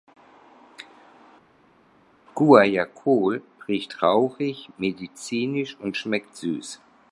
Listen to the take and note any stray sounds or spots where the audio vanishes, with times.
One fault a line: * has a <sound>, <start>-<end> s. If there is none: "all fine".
all fine